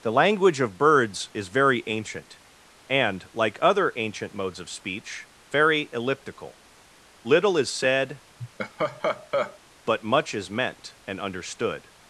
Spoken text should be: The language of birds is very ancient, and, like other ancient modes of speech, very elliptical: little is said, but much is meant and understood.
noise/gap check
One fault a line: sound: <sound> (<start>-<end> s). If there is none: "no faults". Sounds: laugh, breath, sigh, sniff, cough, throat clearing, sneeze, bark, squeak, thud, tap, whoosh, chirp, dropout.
sound: laugh (8.4-9.6 s)